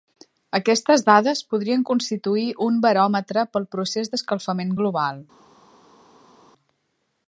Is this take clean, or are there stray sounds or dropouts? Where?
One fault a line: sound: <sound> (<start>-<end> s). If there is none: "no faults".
no faults